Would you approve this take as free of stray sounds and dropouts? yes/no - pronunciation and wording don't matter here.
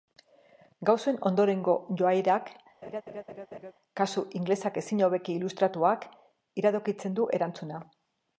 no